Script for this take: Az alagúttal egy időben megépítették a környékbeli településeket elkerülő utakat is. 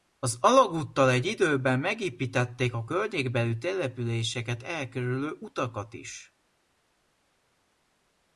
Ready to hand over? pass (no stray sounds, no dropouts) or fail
pass